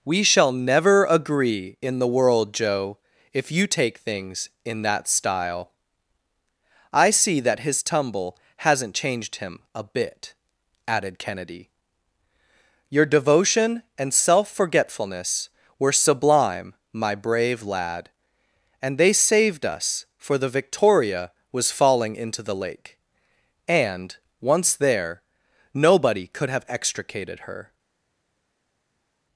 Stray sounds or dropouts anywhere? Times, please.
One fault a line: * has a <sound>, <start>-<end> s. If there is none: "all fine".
all fine